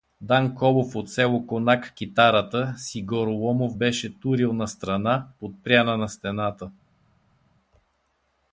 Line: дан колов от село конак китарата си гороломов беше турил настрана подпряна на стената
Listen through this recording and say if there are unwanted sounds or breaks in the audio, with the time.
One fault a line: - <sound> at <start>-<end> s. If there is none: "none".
none